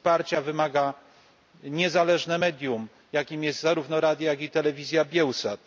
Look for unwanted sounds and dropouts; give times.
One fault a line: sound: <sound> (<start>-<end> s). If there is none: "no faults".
no faults